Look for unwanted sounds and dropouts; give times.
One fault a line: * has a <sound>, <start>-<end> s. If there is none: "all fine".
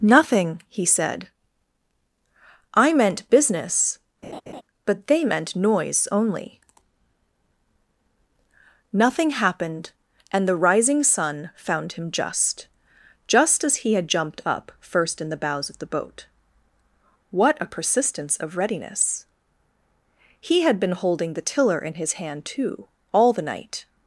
* has a laugh, 4.2-4.6 s